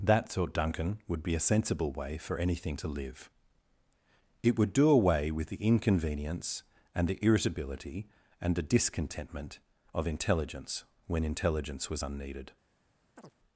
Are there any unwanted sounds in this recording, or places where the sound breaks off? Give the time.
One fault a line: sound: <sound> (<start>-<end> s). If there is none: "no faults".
sound: chirp (13.2-13.4 s)